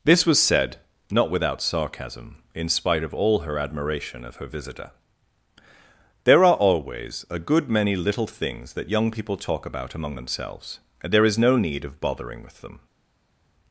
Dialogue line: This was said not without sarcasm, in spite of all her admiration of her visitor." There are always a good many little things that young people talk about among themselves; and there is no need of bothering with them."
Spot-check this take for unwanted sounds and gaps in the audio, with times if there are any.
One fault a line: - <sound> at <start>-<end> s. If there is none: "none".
none